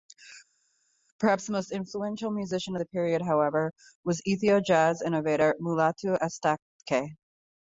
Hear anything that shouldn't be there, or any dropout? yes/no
no